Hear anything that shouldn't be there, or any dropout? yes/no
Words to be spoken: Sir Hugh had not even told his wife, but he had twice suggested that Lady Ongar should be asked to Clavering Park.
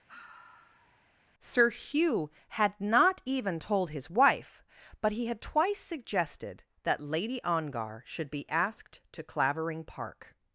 yes